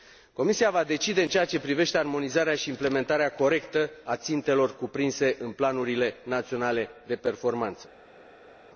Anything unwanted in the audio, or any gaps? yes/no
no